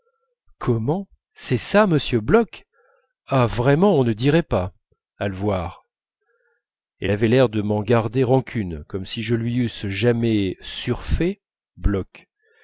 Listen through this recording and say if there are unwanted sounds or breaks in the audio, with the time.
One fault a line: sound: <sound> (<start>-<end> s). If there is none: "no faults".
no faults